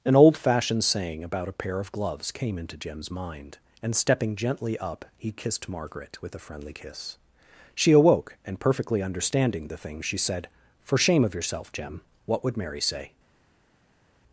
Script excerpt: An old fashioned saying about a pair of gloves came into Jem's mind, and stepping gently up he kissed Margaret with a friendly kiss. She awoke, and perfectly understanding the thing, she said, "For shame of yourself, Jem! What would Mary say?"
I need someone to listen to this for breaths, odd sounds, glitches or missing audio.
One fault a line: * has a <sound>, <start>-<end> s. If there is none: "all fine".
all fine